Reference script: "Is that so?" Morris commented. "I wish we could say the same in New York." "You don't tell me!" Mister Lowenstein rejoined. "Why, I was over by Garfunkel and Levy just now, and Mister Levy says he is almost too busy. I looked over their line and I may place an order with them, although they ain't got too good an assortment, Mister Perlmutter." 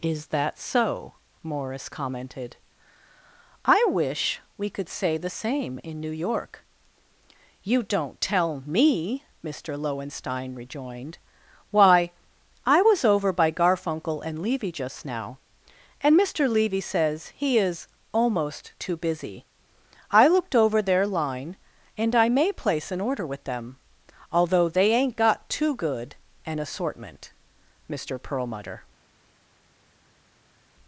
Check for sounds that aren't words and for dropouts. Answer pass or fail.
pass